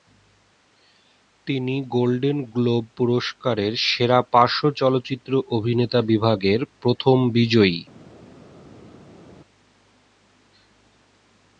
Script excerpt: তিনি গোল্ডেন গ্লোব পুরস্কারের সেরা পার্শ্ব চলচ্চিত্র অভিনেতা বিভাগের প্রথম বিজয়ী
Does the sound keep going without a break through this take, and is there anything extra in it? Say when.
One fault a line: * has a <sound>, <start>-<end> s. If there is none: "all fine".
all fine